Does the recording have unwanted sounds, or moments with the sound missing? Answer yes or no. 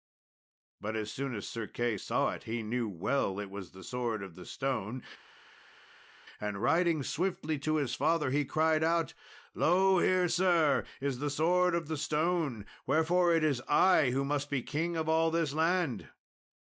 no